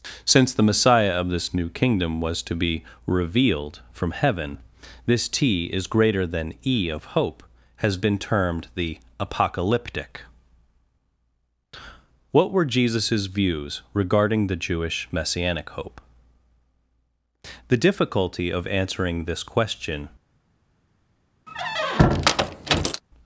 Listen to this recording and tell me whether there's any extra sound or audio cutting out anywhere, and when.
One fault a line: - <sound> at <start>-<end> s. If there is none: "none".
- squeak at 21.5-23.0 s